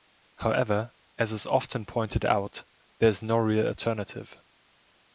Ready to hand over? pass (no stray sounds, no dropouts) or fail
pass